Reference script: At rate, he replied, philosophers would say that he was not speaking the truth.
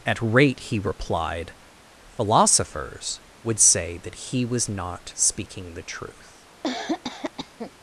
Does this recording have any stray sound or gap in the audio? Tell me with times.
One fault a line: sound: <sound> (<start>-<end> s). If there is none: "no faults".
sound: cough (6.6-7.7 s)